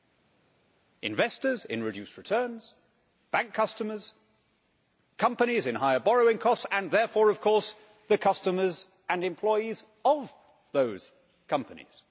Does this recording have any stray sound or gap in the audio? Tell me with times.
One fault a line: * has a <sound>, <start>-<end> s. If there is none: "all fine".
all fine